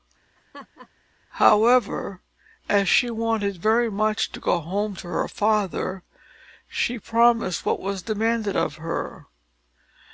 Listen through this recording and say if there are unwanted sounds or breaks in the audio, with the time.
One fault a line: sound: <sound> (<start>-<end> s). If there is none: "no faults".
sound: laugh (0.4-0.9 s)